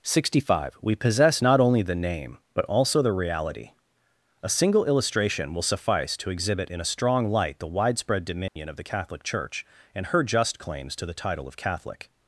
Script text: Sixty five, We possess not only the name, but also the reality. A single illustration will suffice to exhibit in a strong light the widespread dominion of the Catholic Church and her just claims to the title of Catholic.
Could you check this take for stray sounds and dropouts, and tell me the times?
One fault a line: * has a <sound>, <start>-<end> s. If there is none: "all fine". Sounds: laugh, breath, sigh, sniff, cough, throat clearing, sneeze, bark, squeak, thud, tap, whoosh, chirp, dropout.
* has a dropout, 8.5-8.6 s